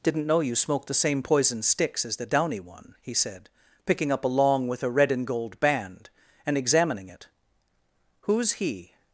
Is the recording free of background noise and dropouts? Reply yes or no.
yes